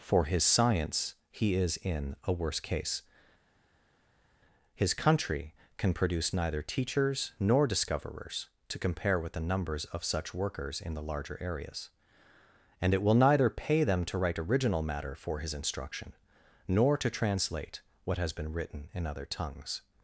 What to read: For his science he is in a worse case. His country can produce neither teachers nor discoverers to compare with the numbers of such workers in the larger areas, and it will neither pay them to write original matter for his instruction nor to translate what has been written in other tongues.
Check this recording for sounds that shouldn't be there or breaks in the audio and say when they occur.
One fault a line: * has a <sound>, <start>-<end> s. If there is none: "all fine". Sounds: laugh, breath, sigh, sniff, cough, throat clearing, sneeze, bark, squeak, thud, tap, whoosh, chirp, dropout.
all fine